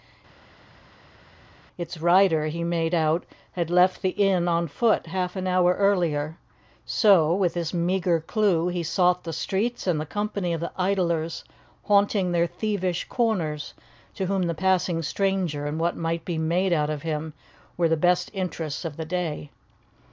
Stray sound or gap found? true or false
false